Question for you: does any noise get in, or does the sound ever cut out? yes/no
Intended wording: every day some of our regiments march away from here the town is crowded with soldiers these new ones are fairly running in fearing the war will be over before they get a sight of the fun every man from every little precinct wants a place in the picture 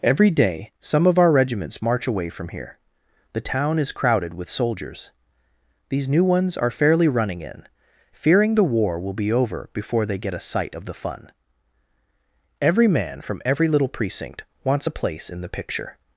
no